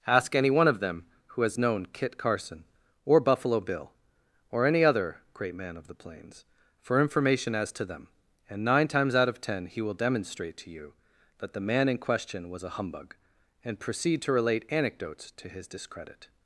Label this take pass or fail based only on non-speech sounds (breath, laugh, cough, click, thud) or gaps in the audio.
pass